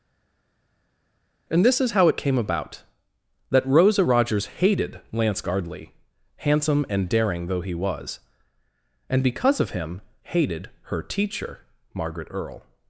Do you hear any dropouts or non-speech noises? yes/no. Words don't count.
no